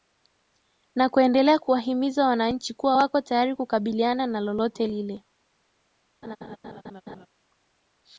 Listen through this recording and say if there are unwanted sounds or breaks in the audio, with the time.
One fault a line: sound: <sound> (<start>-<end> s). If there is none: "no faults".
sound: laugh (6.2-7.3 s)